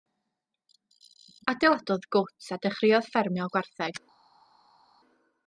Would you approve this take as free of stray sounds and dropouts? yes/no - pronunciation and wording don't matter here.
yes